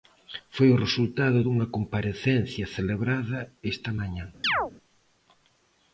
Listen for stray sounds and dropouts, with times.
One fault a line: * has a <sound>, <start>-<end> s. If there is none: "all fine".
* has a chirp, 4.4-4.7 s